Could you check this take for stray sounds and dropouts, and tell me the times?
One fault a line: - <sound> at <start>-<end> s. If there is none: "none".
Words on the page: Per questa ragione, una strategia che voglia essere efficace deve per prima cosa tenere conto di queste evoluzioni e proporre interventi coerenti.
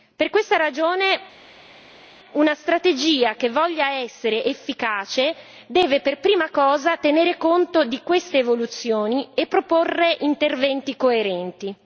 none